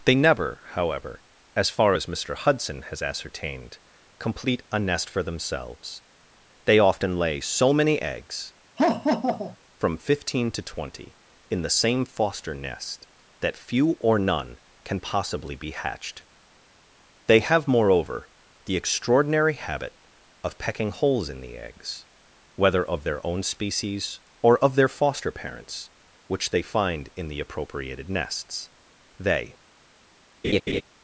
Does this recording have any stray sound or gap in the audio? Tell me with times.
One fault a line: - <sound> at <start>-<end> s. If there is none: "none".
- laugh at 8.8-9.6 s
- laugh at 30.4-30.8 s